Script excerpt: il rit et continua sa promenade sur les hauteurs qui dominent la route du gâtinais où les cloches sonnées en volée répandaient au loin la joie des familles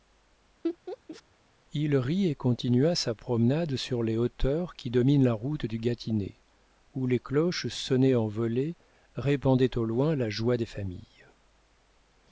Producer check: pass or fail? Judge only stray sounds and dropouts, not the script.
fail